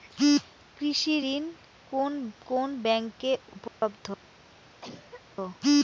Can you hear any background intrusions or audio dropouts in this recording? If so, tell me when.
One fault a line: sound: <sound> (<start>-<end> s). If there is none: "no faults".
sound: dropout (3.7-3.8 s)
sound: cough (4.8-5.2 s)